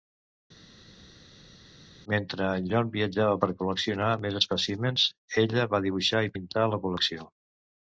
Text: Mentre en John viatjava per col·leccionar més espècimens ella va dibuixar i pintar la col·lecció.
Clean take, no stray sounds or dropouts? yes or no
yes